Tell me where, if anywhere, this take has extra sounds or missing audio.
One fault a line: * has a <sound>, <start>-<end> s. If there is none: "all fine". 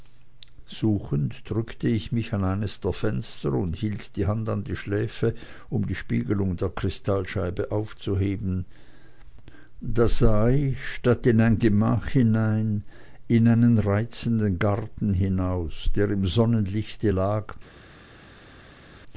all fine